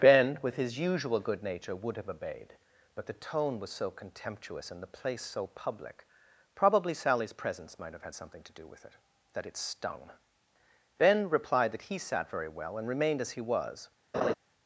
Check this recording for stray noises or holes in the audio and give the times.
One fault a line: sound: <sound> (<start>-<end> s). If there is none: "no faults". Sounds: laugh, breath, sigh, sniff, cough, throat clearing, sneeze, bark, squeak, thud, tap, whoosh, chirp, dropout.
sound: laugh (14.1-14.3 s)